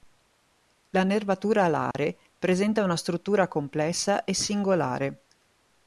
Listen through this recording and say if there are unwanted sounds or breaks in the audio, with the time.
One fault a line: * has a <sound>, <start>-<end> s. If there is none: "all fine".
* has a dropout, 1.9-1.9 s